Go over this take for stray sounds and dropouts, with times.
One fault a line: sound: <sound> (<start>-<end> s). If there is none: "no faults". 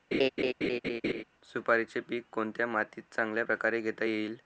sound: laugh (0.1-1.2 s)